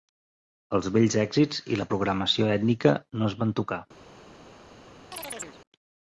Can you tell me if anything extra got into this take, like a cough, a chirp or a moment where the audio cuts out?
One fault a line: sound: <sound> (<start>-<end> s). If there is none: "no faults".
sound: chirp (5.1-5.6 s)